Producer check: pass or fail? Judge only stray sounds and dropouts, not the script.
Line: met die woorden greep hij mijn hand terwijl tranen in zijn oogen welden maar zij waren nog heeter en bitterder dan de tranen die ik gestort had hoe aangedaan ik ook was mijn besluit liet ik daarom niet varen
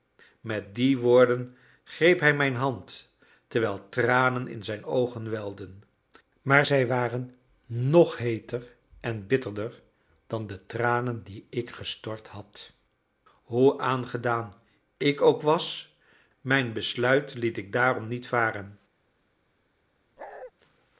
fail